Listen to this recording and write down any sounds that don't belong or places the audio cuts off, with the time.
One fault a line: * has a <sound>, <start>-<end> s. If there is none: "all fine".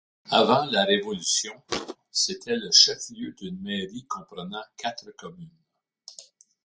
* has a thud, 1.7-2.0 s